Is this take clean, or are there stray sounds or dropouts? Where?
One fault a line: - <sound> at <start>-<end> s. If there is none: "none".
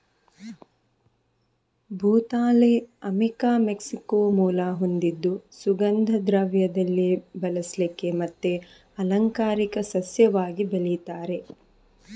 none